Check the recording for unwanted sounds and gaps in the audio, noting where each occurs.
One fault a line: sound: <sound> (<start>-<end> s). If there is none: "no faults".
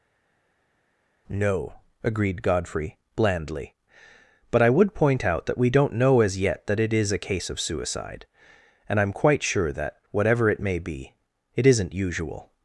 no faults